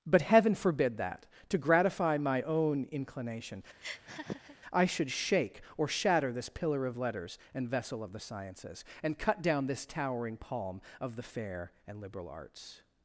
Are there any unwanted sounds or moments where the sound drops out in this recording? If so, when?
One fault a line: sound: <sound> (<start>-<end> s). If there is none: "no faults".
sound: laugh (3.8-4.6 s)